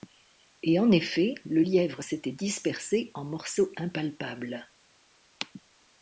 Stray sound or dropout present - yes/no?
no